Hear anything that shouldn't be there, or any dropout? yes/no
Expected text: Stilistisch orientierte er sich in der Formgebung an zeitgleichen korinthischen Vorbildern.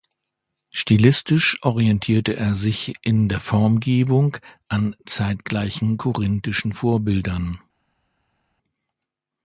no